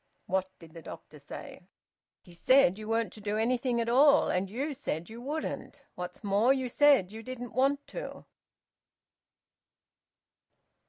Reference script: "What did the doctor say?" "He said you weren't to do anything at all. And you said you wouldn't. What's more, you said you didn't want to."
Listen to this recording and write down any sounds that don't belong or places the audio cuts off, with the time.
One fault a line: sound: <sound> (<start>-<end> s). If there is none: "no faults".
no faults